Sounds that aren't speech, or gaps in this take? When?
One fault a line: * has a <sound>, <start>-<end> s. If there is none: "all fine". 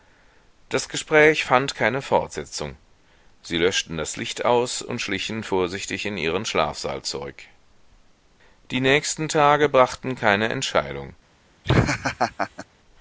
* has a laugh, 11.6-12.7 s